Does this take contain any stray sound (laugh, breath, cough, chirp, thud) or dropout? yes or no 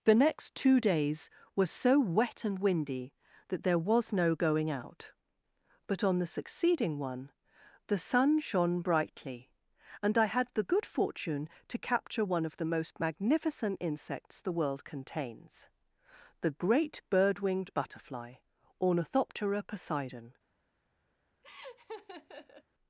yes